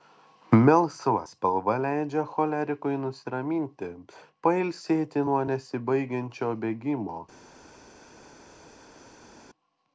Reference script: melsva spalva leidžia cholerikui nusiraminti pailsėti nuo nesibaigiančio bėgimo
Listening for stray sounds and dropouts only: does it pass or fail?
pass